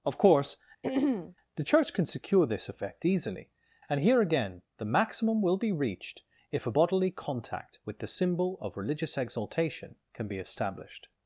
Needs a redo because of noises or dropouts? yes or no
yes